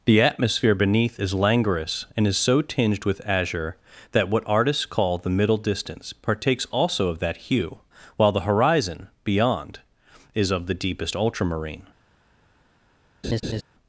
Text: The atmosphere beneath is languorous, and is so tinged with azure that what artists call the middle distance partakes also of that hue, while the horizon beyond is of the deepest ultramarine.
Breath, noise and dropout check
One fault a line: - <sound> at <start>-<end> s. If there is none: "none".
- laugh at 13.2-13.6 s